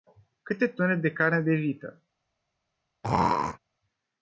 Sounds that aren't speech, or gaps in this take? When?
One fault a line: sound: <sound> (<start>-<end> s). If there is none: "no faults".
sound: throat clearing (3.0-3.6 s)